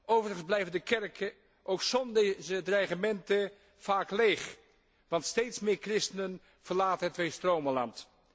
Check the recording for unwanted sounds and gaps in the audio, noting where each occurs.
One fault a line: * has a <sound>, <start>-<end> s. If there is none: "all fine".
all fine